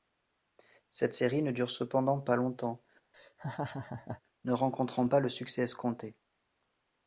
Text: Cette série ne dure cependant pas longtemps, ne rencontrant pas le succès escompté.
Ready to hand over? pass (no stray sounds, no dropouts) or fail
fail